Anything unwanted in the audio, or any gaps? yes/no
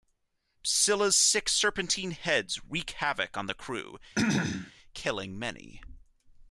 yes